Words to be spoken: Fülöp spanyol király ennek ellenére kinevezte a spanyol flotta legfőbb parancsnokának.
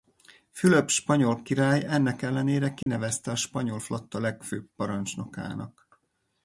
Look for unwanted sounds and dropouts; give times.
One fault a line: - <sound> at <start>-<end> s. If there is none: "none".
- dropout at 2.8-2.9 s